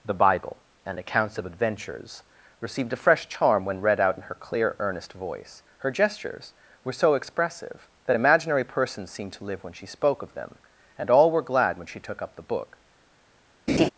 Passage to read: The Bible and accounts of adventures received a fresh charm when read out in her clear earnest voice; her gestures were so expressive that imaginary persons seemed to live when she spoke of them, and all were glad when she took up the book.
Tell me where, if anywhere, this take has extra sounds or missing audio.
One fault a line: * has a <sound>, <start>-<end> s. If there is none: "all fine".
* has a laugh, 13.7-13.9 s